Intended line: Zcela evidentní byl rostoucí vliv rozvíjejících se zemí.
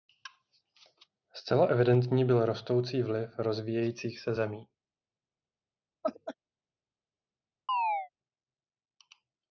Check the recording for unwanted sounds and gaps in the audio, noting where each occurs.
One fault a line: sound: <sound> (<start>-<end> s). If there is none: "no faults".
sound: laugh (6.0-6.3 s)
sound: chirp (7.7-8.1 s)